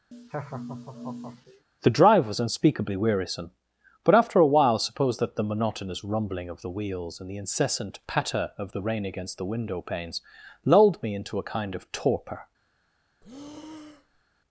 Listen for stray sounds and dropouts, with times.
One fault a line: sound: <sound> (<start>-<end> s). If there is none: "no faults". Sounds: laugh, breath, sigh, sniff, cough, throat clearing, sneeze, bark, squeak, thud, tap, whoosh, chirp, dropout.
sound: laugh (0.1-1.7 s)
sound: breath (13.2-14.2 s)